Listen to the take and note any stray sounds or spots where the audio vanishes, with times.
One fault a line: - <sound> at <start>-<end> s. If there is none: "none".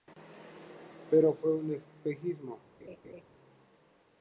- laugh at 2.8-3.2 s